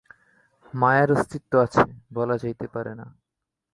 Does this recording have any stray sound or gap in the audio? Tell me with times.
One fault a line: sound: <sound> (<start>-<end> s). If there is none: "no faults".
no faults